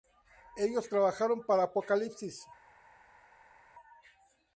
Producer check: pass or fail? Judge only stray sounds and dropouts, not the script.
pass